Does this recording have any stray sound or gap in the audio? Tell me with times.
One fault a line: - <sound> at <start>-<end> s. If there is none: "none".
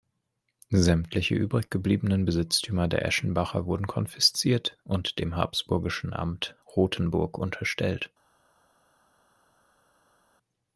none